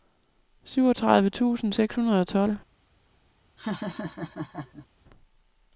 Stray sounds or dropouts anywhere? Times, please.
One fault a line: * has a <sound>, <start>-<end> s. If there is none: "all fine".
* has a laugh, 3.6-4.9 s